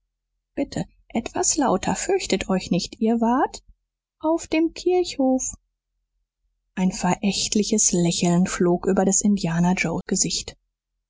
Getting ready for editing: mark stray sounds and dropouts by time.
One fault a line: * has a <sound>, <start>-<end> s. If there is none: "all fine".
all fine